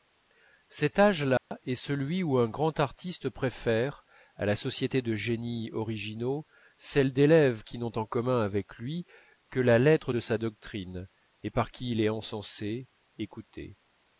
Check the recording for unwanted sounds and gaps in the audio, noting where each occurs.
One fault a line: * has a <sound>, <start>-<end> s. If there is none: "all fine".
* has a dropout, 1.4-1.5 s